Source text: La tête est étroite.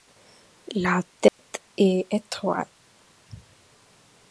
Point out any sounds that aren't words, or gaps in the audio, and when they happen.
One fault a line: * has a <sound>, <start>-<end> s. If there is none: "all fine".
* has a dropout, 1.3-1.4 s